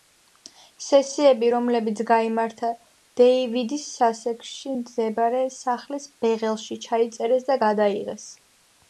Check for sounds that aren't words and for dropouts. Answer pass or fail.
pass